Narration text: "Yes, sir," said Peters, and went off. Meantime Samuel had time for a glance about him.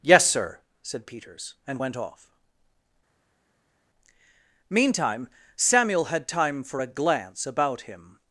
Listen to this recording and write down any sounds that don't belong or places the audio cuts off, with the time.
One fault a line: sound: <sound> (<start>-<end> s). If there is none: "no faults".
no faults